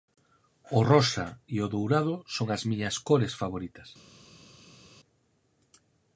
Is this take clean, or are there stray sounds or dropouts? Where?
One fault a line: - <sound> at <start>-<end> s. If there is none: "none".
none